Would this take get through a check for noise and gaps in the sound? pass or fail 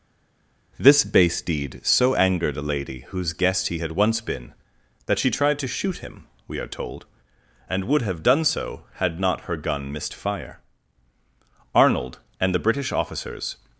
pass